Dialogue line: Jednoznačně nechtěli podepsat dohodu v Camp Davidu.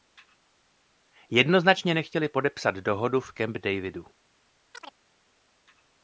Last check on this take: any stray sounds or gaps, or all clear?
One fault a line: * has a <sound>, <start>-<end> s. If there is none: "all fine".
* has a chirp, 4.7-5.0 s